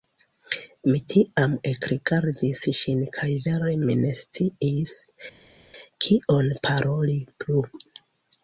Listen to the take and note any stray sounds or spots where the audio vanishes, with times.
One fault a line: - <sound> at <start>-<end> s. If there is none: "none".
none